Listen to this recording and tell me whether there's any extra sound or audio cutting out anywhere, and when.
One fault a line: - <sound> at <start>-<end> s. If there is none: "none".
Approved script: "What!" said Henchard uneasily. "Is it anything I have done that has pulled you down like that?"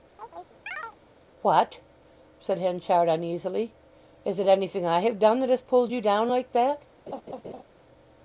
- chirp at 0.2-1.0 s
- laugh at 7.1-7.6 s